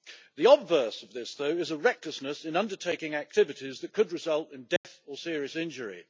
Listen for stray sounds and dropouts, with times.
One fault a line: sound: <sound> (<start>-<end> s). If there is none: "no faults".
sound: dropout (4.8-4.8 s)